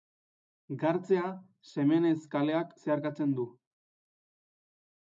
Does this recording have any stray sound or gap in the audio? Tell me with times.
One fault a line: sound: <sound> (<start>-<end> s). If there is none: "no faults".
no faults